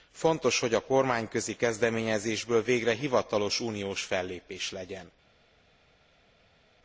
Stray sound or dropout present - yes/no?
no